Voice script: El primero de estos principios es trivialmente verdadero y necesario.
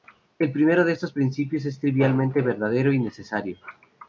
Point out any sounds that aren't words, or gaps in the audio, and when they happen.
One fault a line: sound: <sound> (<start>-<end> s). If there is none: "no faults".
no faults